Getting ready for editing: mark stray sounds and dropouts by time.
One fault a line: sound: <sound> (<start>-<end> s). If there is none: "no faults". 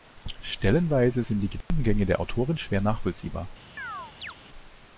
sound: dropout (1.6-1.7 s)
sound: chirp (3.8-4.3 s)